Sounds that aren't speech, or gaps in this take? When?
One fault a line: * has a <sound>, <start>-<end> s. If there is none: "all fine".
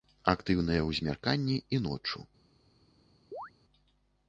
* has a chirp, 3.3-3.5 s